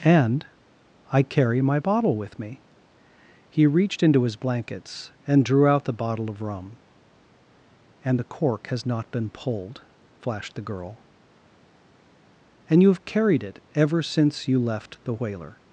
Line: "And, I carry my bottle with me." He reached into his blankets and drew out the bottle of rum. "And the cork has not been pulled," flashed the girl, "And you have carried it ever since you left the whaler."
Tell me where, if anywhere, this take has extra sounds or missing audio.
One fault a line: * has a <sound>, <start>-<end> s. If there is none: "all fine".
all fine